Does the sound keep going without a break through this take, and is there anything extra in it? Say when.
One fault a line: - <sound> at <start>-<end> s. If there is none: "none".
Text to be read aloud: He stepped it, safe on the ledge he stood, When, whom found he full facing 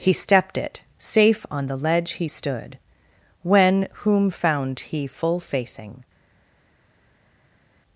none